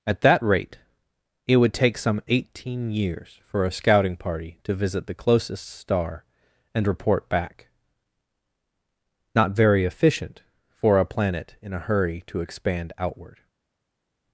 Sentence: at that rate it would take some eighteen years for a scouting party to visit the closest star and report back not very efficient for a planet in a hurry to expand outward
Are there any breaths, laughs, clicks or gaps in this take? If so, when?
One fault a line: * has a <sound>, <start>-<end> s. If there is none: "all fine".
all fine